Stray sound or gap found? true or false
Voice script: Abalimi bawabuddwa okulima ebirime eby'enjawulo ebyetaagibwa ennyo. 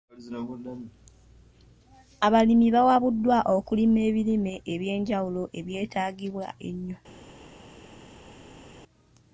false